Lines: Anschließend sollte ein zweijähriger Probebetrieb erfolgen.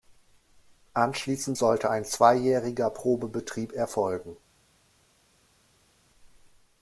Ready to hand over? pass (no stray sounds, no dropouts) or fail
pass